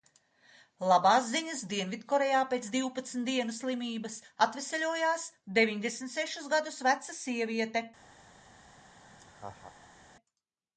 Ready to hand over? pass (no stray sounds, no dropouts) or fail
fail